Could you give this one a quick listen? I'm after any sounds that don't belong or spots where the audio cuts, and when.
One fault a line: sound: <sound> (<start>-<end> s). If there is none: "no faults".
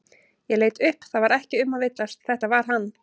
no faults